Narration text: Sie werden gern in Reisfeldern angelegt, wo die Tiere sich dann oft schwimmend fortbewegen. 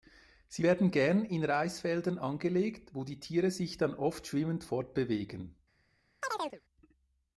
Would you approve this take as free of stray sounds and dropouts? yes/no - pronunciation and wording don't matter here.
no